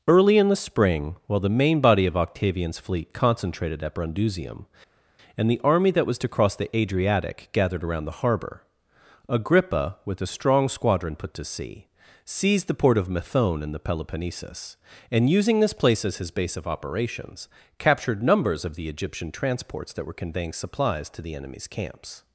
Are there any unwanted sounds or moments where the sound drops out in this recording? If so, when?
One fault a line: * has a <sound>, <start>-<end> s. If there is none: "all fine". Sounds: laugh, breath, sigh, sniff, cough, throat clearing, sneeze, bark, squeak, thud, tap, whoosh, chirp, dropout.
all fine